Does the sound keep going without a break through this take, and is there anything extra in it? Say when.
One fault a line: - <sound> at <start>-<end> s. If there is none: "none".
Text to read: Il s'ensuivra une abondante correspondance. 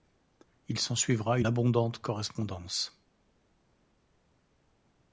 none